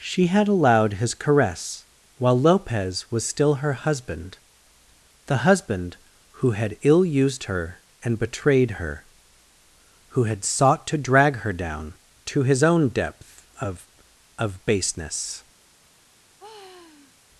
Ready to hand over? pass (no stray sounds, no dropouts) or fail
fail